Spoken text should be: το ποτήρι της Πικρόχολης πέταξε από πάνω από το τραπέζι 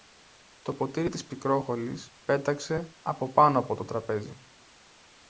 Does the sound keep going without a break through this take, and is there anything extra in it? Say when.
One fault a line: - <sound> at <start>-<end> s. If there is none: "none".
none